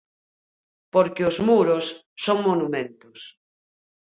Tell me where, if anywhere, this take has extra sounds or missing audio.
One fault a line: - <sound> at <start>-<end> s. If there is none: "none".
none